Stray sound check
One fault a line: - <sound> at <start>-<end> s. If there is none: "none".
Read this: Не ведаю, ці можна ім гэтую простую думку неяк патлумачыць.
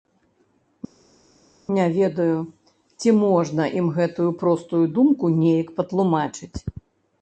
none